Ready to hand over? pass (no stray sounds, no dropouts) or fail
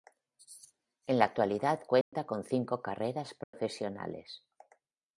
fail